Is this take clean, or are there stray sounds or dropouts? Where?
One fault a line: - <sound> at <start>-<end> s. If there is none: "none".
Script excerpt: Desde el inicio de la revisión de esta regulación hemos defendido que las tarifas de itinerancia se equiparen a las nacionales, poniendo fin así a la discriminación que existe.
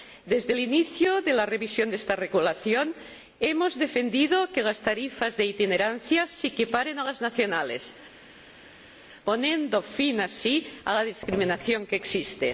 none